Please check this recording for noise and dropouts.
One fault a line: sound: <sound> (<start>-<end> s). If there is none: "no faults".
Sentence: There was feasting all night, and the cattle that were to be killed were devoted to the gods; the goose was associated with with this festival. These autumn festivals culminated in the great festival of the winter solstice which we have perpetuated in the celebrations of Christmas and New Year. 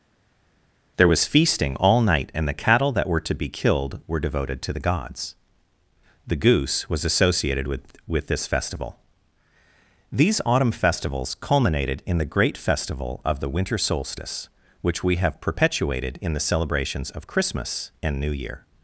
no faults